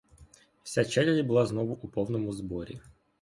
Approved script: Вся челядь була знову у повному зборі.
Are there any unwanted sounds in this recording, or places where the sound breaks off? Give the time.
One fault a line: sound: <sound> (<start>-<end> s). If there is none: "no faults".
no faults